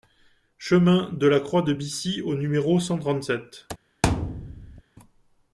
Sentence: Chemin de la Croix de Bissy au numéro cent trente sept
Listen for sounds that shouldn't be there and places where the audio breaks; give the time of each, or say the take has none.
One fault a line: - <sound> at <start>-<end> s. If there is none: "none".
- thud at 4.0-4.8 s